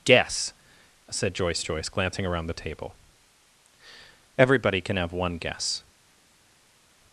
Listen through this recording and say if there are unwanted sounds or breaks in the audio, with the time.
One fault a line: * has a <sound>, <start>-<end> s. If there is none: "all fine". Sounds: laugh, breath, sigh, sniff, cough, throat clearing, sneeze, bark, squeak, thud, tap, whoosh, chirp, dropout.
all fine